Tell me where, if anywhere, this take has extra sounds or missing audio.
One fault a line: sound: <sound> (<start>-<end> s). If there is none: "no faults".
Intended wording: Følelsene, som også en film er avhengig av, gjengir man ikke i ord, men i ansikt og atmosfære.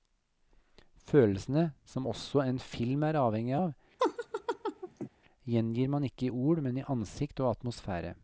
sound: laugh (4.0-5.1 s)